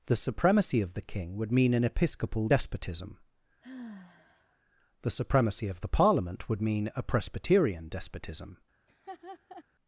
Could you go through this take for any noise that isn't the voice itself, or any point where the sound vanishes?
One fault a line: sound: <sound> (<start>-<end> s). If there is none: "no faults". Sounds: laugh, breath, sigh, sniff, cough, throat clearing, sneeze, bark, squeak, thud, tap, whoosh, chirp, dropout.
sound: sigh (3.6-4.6 s)
sound: laugh (8.9-9.6 s)